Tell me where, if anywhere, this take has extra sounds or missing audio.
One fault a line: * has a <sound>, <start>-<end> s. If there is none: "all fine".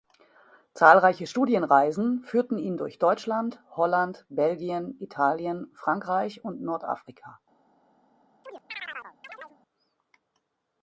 * has a chirp, 8.4-9.6 s